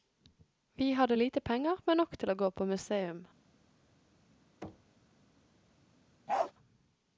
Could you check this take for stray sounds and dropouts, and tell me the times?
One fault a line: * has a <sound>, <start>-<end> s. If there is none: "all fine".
* has a thud, 4.6-5.0 s
* has a bark, 6.3-6.5 s